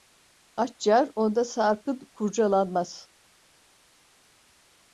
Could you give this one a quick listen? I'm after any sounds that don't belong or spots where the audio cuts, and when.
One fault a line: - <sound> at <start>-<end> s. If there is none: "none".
none